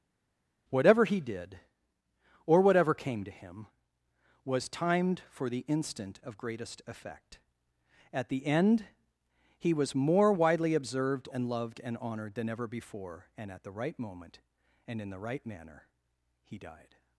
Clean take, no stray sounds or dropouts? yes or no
yes